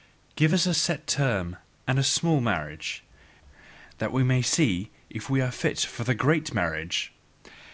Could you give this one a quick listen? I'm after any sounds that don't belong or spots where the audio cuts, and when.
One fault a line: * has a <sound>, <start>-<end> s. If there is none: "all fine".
all fine